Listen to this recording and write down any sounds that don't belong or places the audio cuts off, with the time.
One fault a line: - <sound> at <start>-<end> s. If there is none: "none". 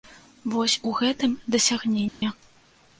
- dropout at 2.1-2.2 s